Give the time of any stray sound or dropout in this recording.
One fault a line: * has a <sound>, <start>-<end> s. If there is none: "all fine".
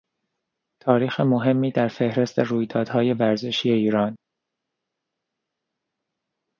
all fine